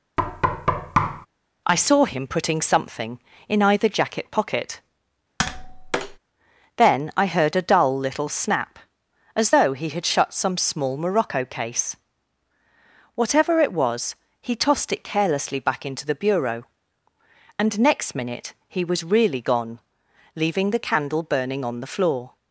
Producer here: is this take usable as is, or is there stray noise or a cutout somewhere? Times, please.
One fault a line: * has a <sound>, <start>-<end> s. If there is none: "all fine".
* has a thud, 0.2-1.3 s
* has a tap, 5.4-6.2 s